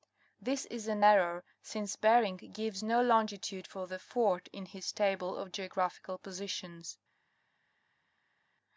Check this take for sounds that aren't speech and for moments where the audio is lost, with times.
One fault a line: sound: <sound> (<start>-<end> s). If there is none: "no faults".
no faults